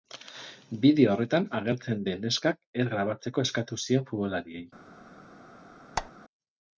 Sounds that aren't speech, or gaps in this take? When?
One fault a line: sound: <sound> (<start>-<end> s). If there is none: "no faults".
sound: squeak (6.0-6.1 s)